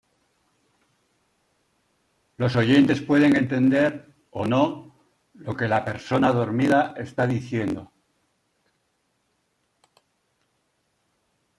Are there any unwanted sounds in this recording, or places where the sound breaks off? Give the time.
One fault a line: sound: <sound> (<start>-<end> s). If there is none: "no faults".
no faults